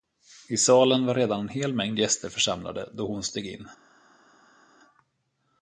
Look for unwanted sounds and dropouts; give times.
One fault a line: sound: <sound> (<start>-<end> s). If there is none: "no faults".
no faults